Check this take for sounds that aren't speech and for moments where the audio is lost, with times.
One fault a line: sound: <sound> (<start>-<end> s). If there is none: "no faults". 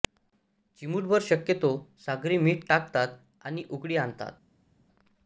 no faults